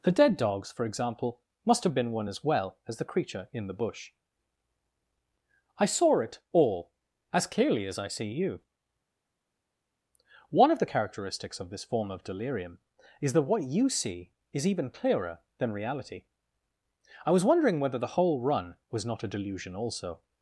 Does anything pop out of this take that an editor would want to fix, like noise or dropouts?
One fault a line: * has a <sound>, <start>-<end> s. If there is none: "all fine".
all fine